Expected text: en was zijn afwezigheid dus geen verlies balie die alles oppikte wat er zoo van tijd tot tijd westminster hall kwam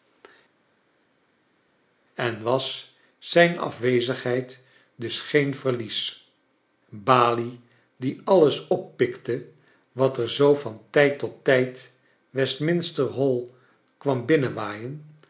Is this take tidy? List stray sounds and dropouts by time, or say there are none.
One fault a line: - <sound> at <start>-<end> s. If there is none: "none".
none